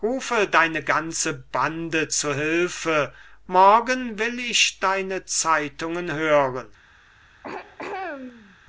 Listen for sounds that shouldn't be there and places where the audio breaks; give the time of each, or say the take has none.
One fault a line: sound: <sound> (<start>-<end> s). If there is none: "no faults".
sound: throat clearing (7.4-8.6 s)